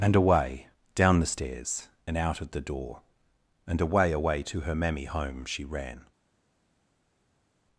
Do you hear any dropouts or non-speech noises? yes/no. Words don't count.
no